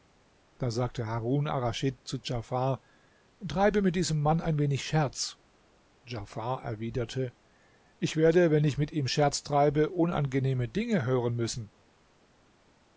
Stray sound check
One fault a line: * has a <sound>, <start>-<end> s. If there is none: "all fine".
all fine